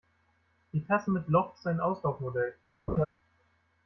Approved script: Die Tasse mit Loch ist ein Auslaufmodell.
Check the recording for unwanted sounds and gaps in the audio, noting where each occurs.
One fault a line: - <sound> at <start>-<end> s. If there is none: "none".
- laugh at 2.9-3.1 s